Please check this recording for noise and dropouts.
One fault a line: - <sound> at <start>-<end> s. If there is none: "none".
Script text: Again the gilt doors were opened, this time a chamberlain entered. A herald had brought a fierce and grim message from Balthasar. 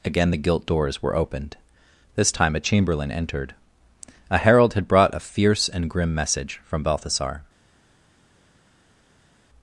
none